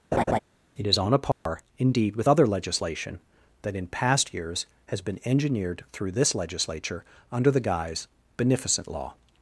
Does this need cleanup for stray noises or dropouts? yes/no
yes